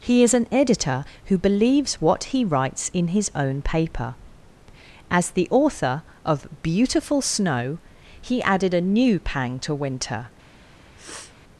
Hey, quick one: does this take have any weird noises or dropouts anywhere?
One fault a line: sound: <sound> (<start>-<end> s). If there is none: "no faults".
sound: sniff (11.0-11.3 s)